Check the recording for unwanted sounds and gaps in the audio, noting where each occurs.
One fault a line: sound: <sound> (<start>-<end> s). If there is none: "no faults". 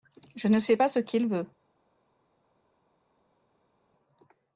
no faults